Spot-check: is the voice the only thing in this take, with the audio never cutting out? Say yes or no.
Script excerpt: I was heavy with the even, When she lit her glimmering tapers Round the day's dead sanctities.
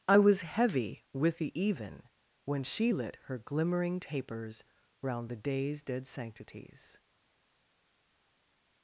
yes